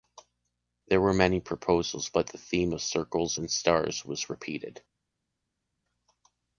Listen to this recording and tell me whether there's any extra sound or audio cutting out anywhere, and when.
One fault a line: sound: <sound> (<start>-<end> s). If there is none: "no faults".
no faults